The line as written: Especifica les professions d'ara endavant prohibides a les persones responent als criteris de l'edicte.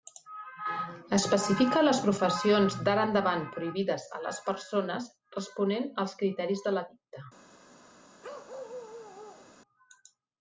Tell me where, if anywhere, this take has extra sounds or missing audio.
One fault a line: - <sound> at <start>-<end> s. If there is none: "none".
- bark at 8.2-9.5 s